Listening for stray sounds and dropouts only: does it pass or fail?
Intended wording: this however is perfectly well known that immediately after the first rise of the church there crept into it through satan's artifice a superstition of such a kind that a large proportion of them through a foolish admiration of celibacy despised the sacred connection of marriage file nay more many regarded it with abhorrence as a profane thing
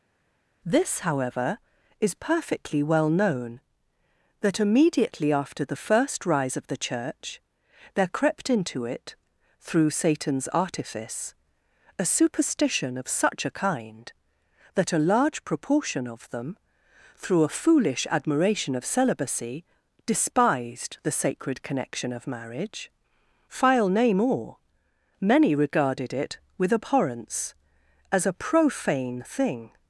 pass